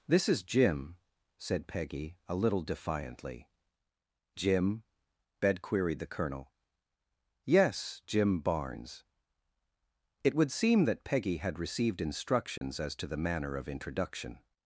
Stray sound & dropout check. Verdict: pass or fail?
fail